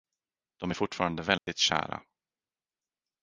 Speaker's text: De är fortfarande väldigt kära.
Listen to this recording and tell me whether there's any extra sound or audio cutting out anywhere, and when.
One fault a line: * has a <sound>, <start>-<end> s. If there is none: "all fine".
* has a dropout, 1.4-1.5 s